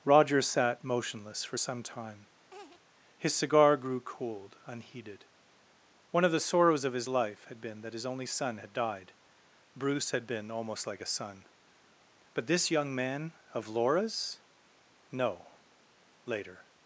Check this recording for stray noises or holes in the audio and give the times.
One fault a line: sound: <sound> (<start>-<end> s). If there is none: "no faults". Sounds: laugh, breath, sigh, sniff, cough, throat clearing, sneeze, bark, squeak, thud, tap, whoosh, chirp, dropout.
sound: laugh (2.5-2.8 s)